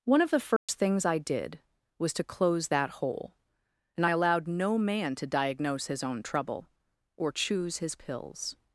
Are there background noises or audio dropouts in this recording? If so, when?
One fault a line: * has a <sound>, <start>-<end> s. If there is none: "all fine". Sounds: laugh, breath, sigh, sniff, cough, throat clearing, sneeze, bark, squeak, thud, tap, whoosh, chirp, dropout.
* has a dropout, 0.6-0.7 s